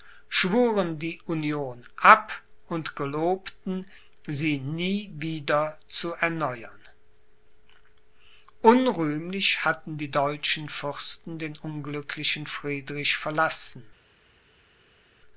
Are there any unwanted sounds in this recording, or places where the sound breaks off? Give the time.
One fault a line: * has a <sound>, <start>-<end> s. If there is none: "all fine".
all fine